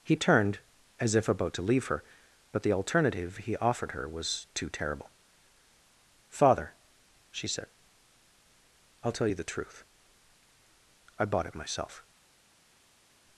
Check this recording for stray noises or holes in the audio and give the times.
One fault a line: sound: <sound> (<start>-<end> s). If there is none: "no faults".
no faults